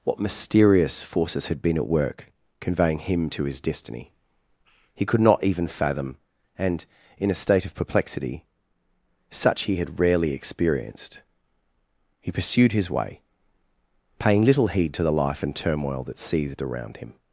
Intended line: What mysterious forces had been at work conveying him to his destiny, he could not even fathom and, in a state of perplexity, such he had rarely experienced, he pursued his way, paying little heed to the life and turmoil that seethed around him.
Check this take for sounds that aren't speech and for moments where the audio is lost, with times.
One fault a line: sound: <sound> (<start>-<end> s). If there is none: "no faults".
no faults